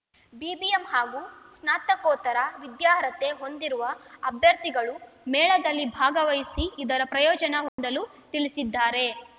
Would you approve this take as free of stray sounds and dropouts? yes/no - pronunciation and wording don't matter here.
no